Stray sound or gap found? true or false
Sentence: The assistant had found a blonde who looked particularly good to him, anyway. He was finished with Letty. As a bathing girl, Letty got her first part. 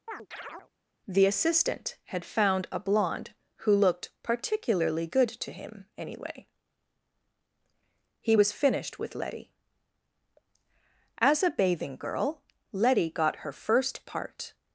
true